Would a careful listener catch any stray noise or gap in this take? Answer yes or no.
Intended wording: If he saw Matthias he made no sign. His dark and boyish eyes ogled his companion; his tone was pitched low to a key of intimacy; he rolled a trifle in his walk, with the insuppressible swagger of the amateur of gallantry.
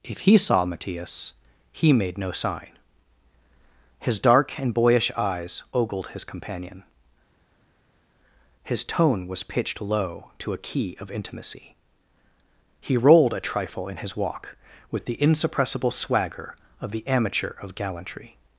no